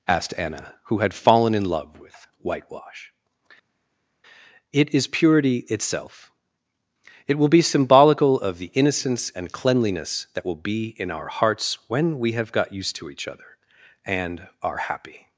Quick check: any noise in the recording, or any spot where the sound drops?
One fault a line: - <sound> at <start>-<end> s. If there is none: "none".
none